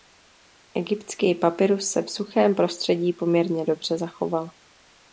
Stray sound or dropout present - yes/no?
no